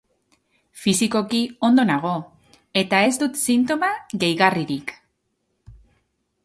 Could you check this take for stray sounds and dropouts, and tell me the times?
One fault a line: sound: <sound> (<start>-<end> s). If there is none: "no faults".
no faults